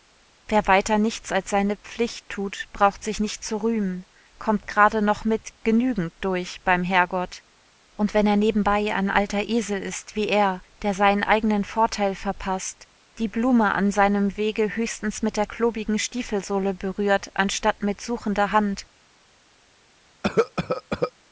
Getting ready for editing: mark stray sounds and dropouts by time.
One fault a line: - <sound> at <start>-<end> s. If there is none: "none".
- cough at 20.2-21.1 s